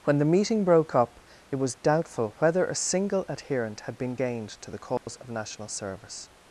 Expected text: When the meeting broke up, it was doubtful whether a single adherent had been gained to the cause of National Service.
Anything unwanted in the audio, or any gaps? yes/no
yes